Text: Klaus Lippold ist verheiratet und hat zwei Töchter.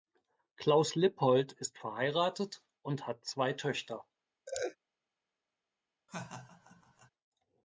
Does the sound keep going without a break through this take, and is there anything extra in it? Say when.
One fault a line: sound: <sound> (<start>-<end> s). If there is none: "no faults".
sound: laugh (4.5-4.8 s)
sound: laugh (6.1-7.1 s)